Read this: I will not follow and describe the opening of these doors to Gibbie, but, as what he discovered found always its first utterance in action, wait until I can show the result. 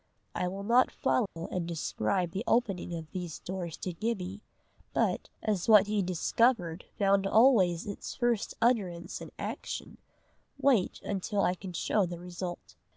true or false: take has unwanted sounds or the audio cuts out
true